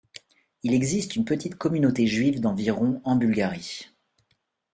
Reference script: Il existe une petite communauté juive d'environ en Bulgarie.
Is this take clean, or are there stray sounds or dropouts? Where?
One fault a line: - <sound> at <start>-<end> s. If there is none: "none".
none